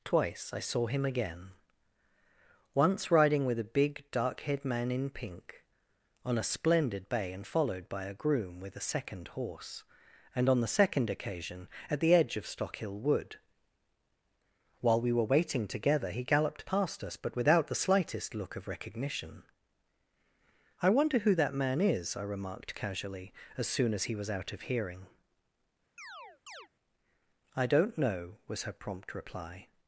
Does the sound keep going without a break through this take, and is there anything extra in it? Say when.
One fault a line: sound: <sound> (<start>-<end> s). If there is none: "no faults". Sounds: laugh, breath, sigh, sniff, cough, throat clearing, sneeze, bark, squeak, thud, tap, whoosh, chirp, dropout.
sound: chirp (26.0-26.7 s)